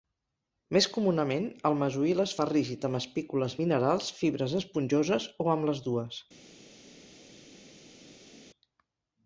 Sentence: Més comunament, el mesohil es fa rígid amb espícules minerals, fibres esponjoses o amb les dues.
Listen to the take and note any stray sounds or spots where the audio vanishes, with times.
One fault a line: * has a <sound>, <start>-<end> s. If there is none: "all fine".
all fine